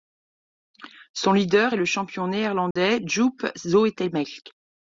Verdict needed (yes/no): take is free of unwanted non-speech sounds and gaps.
no